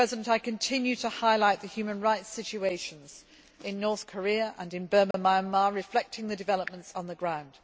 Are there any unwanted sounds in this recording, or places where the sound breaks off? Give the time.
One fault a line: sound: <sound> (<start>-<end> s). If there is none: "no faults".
sound: dropout (5.1-5.1 s)